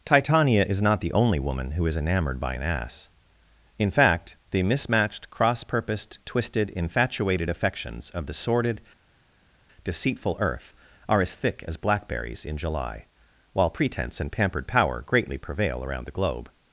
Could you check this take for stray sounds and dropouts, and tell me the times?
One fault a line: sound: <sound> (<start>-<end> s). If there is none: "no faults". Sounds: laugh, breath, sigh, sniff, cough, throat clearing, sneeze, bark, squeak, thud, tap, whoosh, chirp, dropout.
no faults